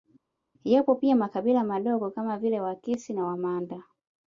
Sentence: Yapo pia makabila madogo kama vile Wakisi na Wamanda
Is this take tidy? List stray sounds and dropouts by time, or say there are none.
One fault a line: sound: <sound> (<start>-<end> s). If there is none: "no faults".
no faults